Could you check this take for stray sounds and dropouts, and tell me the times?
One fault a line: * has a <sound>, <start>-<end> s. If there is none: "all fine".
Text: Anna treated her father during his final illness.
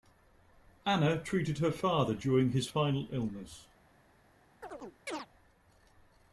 * has a chirp, 4.6-5.3 s